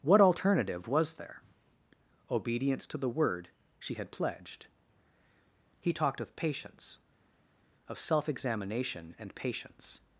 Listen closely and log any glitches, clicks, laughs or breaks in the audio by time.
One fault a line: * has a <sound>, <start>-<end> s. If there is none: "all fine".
all fine